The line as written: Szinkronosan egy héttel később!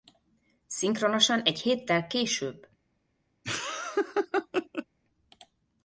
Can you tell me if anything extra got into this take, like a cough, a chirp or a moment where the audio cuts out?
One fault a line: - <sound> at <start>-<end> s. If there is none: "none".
- laugh at 3.4-4.9 s